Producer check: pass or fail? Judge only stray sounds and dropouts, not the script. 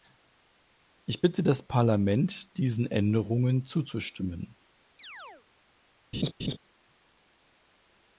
fail